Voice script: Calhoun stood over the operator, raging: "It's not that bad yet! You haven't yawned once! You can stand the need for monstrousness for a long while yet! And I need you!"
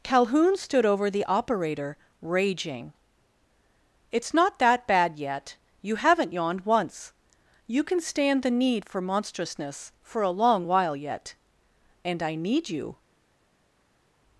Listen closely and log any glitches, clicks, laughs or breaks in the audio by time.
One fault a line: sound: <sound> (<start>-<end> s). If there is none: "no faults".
no faults